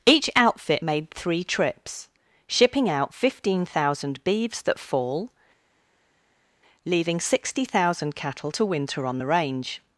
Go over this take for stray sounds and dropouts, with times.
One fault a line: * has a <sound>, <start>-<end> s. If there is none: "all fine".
all fine